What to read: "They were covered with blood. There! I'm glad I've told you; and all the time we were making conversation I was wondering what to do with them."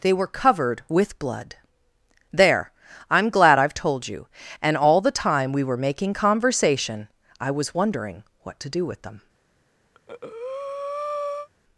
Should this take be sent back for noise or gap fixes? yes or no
yes